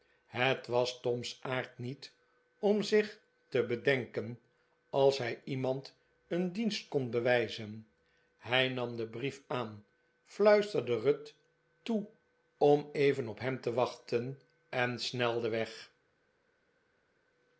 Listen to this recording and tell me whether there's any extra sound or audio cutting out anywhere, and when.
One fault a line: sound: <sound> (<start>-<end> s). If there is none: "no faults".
no faults